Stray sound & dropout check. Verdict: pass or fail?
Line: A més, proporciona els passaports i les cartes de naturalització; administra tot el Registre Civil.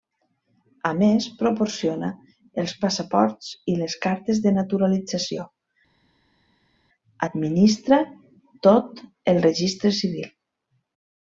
pass